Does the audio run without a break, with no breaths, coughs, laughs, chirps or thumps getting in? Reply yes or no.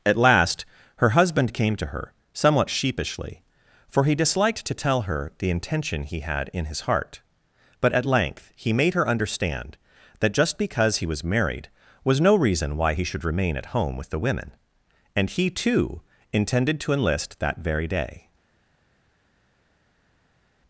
yes